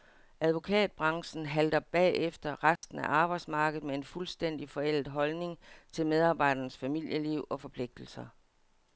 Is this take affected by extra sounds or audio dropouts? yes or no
yes